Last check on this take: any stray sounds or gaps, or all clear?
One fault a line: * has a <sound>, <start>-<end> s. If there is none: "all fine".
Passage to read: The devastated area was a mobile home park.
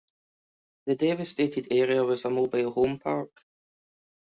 all fine